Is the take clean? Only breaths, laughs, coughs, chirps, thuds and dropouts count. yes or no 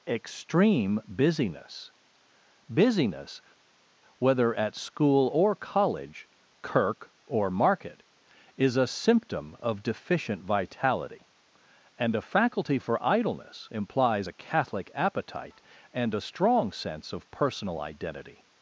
yes